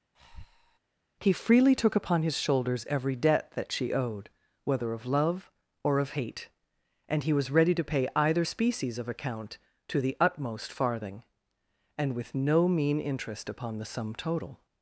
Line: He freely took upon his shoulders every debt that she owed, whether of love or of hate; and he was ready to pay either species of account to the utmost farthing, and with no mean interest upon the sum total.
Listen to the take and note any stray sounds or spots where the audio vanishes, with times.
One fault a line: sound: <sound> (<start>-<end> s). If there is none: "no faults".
sound: breath (0.1-0.8 s)